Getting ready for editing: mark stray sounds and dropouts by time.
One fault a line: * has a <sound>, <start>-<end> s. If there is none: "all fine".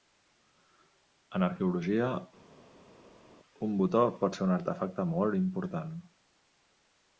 all fine